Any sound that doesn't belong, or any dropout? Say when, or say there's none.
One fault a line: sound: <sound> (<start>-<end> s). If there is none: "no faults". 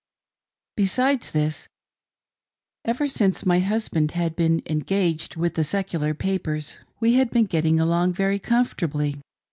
no faults